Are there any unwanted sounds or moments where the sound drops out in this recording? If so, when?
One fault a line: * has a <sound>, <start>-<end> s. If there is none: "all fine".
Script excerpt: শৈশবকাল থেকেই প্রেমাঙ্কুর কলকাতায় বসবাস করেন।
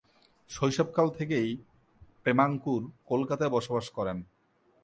all fine